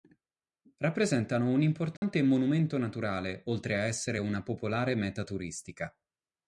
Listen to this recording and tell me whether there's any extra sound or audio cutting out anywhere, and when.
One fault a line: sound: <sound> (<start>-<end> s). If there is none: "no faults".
sound: dropout (2.0-2.0 s)